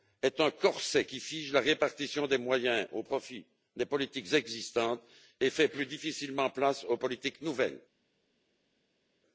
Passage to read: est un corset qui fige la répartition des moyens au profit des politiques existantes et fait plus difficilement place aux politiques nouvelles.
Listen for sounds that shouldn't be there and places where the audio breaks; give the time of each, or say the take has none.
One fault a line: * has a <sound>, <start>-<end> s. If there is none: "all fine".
all fine